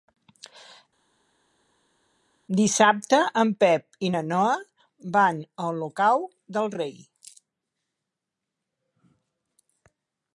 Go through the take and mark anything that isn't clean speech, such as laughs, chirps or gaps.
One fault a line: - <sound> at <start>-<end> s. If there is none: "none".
none